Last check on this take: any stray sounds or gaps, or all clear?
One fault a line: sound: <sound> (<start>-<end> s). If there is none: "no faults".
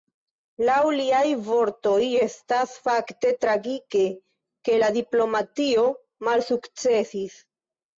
no faults